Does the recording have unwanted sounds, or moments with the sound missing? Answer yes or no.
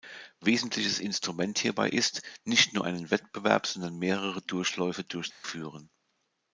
yes